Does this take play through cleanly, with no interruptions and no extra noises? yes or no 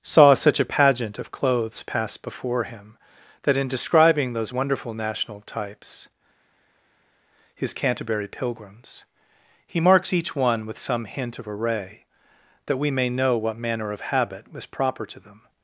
yes